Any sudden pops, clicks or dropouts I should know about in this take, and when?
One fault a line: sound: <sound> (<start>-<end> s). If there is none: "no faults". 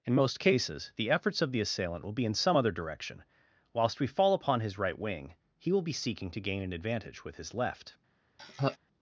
sound: laugh (8.4-8.8 s)